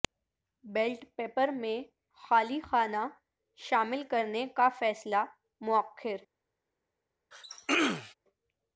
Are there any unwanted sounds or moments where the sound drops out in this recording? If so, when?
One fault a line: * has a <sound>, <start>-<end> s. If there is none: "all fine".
* has a throat clearing, 7.3-8.1 s